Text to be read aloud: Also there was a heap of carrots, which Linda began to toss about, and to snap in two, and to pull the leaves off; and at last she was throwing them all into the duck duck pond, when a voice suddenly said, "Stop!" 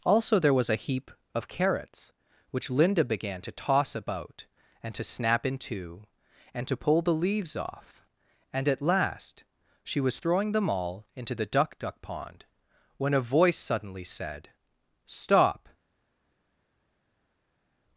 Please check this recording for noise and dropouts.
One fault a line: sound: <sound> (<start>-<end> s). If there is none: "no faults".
no faults